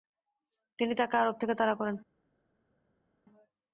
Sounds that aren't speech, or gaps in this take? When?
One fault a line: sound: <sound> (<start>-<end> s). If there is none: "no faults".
no faults